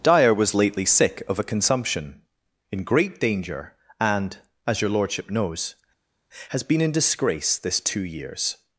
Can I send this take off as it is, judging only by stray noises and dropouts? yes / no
yes